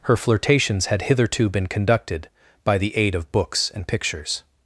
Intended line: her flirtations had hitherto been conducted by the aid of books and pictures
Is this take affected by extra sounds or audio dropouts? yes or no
no